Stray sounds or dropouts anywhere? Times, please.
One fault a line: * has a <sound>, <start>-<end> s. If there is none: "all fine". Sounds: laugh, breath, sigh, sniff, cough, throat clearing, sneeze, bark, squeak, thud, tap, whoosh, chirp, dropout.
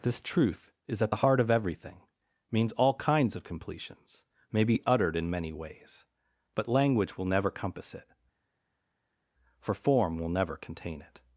all fine